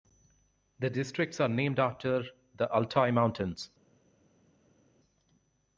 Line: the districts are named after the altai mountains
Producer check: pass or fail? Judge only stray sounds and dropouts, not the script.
pass